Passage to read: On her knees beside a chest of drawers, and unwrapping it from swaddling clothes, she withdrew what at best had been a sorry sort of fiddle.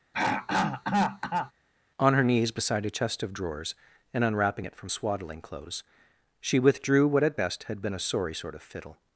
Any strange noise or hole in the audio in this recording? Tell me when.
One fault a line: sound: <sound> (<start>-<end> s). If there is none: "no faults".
sound: throat clearing (0.1-1.5 s)